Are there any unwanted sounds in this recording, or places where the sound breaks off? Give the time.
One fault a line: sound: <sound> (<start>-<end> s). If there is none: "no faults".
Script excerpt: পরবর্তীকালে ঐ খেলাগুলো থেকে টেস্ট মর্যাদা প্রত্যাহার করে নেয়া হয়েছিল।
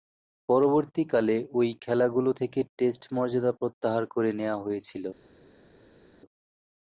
no faults